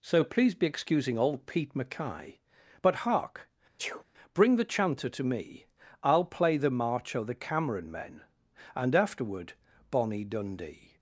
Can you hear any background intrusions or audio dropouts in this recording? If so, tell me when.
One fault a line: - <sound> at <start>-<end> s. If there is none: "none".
- sneeze at 3.8-4.0 s